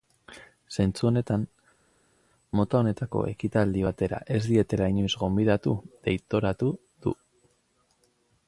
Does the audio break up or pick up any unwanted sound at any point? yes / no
no